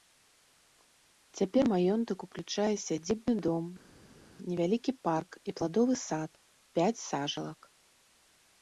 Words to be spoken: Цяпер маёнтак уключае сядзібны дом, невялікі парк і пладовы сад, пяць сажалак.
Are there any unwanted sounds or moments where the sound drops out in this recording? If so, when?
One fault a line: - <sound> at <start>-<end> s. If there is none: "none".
none